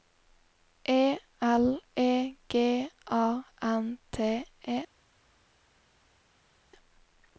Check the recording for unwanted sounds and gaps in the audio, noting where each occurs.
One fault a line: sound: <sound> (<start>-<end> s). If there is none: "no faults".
no faults